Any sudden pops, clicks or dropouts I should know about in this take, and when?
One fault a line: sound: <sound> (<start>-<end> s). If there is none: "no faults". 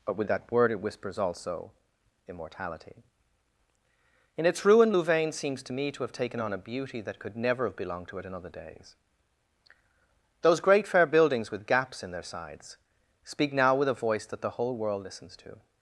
no faults